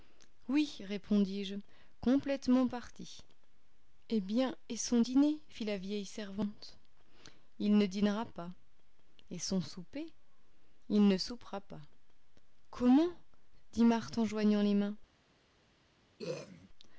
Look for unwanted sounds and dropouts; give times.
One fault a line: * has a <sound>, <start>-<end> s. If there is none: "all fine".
* has a throat clearing, 16.2-16.7 s